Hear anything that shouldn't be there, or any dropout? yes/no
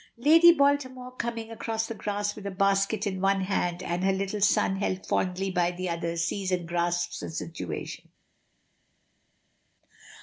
no